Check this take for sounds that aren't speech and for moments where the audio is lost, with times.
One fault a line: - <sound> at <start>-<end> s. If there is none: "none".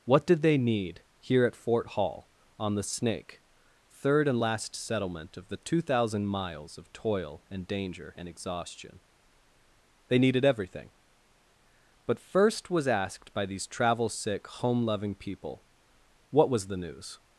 none